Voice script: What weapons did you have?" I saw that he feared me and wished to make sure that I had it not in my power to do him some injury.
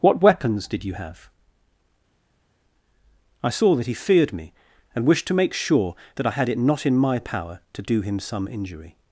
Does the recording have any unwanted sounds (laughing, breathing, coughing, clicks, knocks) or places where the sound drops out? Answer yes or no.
no